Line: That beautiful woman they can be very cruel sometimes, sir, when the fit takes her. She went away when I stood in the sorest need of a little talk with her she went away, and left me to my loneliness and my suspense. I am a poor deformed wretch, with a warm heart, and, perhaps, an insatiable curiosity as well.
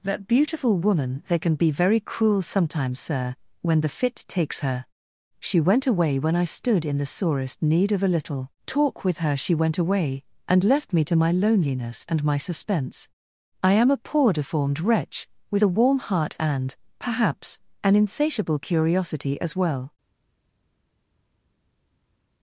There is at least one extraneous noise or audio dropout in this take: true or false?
false